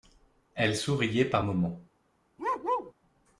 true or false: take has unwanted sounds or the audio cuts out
true